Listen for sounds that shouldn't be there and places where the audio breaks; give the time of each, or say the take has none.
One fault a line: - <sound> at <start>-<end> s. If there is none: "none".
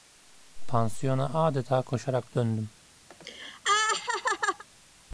- laugh at 3.1-4.6 s